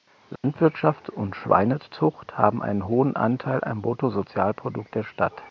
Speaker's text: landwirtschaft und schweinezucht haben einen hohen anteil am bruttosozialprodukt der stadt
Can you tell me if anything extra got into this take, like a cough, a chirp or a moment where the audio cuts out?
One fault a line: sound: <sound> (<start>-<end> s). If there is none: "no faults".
sound: dropout (0.4-0.4 s)